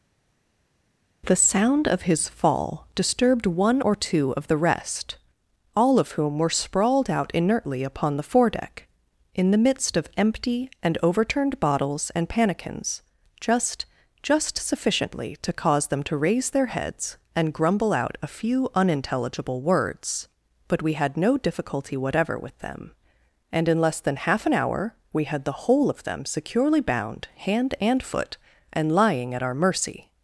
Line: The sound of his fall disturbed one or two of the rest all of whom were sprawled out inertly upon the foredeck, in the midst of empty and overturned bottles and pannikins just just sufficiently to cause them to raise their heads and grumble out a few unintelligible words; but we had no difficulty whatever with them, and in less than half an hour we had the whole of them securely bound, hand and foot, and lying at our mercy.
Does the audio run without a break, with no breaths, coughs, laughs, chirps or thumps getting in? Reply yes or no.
yes